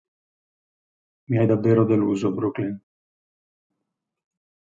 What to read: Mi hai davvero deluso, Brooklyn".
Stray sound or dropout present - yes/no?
no